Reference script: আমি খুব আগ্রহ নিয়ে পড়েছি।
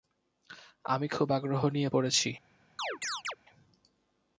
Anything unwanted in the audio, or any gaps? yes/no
yes